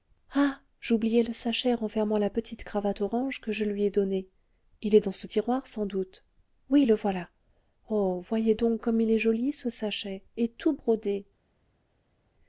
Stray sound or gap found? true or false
false